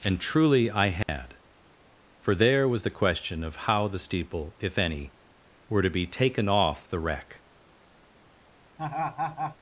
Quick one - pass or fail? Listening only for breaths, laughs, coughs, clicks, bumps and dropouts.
fail